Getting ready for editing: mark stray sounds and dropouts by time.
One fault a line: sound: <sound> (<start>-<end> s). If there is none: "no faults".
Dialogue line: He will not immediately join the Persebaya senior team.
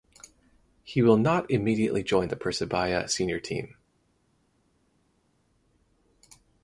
no faults